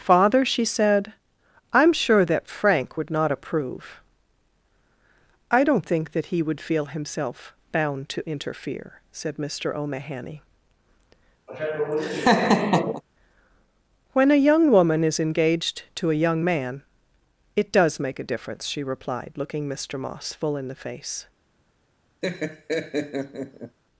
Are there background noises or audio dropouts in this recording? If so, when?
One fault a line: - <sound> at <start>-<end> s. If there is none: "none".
- laugh at 11.5-13.0 s
- laugh at 22.2-23.8 s